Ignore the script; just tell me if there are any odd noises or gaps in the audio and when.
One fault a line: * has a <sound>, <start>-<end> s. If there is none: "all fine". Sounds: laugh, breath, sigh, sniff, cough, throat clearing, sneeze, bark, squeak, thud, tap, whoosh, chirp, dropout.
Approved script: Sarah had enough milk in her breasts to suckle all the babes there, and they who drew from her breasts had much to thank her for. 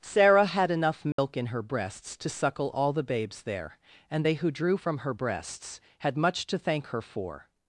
* has a dropout, 1.1-1.2 s